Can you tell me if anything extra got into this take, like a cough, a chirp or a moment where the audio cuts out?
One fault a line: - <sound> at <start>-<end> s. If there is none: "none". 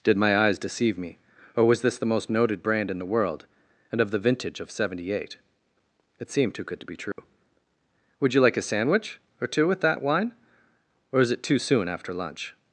- dropout at 7.1-7.2 s